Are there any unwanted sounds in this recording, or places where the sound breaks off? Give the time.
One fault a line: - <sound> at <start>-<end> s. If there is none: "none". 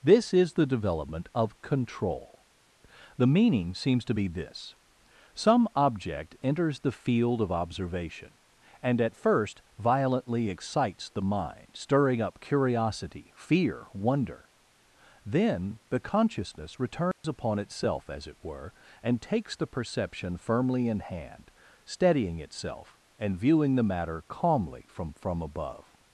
- dropout at 17.1-17.2 s